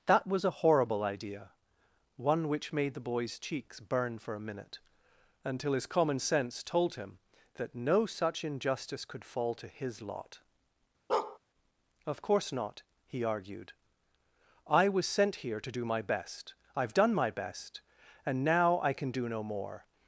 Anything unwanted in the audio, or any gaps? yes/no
yes